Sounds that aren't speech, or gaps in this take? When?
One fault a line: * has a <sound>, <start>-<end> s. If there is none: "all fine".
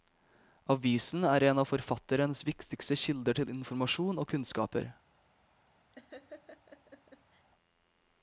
* has a laugh, 5.9-7.5 s